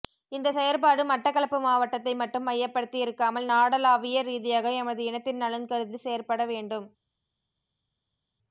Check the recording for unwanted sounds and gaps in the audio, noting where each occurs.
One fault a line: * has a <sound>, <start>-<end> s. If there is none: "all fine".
all fine